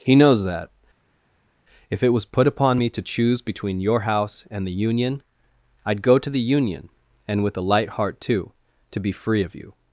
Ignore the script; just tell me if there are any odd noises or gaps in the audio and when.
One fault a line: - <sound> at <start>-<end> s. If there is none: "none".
none